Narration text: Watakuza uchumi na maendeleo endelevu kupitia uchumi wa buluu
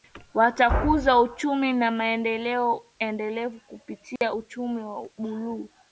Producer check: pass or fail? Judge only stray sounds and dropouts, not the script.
fail